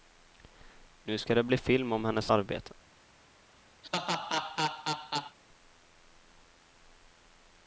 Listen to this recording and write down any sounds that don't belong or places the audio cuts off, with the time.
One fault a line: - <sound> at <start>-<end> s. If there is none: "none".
- laugh at 3.8-5.4 s